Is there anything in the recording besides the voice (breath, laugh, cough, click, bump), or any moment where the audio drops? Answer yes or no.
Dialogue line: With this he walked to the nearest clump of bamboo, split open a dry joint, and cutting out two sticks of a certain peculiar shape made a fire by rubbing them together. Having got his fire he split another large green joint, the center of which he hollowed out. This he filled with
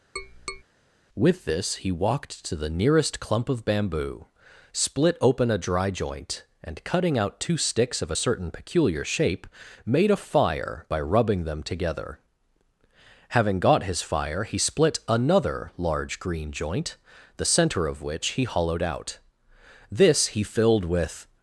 yes